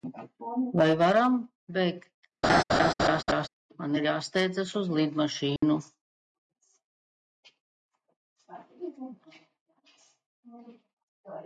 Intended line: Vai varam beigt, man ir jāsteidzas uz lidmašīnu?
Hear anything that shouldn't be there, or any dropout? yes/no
yes